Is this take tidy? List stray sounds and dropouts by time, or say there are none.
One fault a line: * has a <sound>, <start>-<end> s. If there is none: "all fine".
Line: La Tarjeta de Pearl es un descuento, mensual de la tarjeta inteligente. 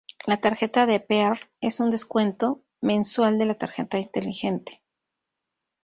all fine